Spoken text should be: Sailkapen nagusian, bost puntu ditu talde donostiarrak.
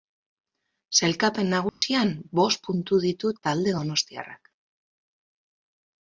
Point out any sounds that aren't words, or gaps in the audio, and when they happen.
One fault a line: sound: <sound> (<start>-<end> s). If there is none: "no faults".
sound: dropout (1.7-1.8 s)